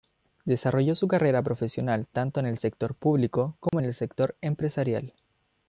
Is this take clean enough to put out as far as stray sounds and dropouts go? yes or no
no